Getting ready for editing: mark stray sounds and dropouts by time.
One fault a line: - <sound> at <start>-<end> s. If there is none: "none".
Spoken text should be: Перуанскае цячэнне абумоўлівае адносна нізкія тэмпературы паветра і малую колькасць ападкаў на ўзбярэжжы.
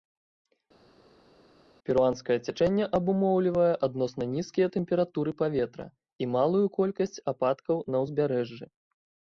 none